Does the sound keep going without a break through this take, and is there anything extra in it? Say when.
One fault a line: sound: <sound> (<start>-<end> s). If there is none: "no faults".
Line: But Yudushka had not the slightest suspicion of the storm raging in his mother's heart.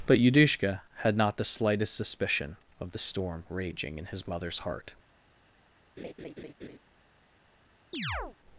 sound: laugh (6.0-6.8 s)
sound: chirp (7.9-8.4 s)